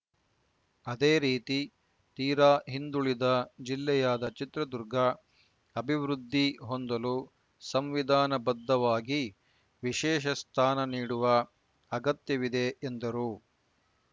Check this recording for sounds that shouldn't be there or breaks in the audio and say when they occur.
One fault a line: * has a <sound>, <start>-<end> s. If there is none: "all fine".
all fine